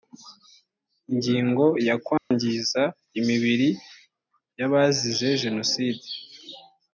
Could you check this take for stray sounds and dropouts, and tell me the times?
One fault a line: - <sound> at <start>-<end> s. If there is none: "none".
- dropout at 2.2-2.3 s